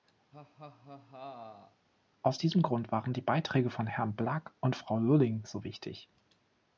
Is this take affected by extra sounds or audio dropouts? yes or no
yes